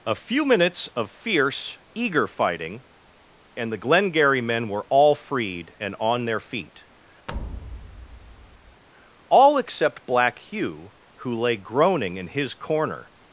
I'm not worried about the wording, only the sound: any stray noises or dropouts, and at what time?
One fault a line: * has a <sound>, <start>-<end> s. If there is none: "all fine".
* has a thud, 7.3-8.8 s